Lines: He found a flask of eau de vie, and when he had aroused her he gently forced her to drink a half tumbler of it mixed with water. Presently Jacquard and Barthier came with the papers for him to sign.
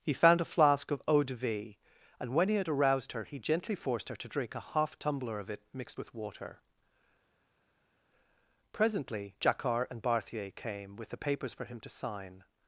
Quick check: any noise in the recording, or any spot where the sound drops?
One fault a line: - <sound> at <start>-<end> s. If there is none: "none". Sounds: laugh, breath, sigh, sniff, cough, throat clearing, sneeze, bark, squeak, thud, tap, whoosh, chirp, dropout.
none